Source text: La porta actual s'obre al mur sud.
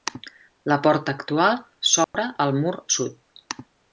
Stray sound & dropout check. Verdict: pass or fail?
fail